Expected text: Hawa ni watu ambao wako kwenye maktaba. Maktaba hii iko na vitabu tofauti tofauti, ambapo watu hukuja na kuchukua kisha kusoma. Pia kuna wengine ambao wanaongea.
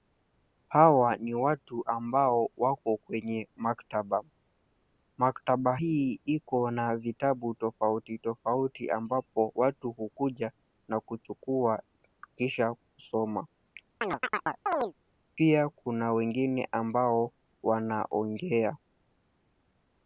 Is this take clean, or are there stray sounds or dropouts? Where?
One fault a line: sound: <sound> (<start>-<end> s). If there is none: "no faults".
sound: chirp (14.0-14.9 s)